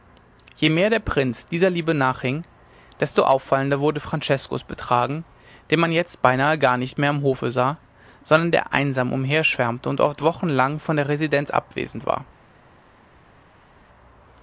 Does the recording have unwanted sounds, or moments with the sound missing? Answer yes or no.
no